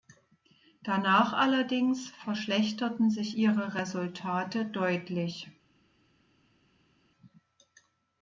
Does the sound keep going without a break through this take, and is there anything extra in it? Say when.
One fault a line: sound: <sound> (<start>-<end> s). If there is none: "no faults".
no faults